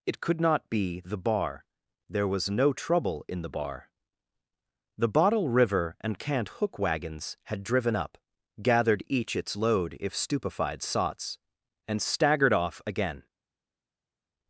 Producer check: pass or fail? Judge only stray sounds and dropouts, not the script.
pass